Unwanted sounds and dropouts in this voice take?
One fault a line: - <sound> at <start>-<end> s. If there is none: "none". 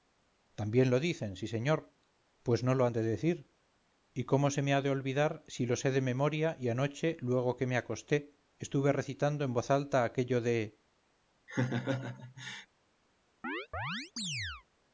- laugh at 11.5-12.7 s
- chirp at 13.4-14.6 s